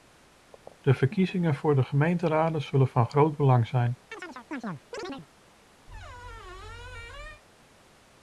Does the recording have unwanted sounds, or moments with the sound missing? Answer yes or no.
yes